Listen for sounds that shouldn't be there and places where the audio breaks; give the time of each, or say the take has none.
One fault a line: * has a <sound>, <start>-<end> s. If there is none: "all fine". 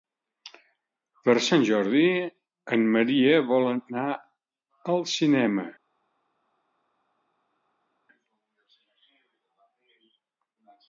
all fine